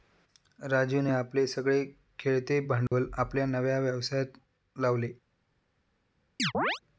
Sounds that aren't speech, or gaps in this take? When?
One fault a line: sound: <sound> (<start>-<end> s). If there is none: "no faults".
sound: dropout (2.9-2.9 s)
sound: chirp (6.4-6.8 s)